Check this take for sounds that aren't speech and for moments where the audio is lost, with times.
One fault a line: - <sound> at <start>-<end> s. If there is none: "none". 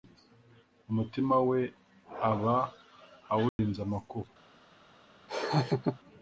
- dropout at 3.5-3.6 s
- laugh at 5.3-6.0 s